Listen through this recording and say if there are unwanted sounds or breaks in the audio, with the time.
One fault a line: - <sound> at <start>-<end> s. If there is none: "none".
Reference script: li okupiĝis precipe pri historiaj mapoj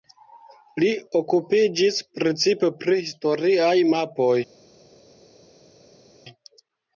none